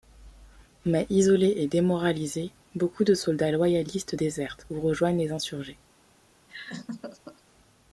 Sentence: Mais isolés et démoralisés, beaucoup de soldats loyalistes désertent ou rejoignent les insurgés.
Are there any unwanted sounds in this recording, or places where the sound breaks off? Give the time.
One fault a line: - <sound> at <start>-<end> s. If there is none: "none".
- laugh at 6.5-7.4 s